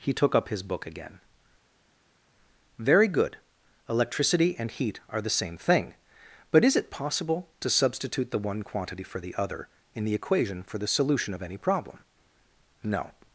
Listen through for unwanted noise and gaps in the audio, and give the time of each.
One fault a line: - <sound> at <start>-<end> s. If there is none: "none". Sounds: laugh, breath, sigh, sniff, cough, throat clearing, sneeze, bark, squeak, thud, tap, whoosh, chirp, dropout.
none